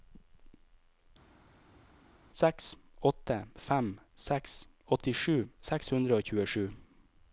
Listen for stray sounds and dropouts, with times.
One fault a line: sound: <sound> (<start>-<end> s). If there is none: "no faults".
no faults